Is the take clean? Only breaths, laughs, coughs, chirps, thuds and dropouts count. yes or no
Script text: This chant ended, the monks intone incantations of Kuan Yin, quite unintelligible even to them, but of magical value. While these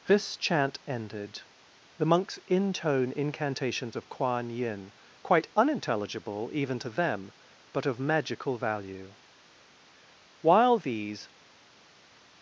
yes